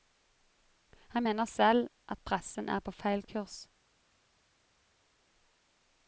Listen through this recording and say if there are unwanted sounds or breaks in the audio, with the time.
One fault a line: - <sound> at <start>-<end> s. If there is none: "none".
none